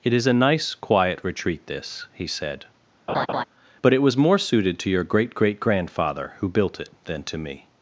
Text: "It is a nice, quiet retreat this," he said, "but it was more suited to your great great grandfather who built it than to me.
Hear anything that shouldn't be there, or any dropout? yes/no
yes